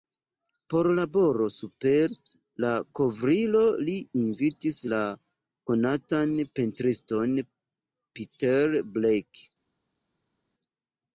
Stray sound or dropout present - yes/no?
no